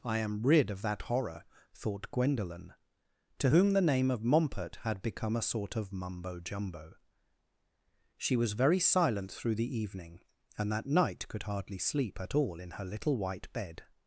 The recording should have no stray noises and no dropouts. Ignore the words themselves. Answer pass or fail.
pass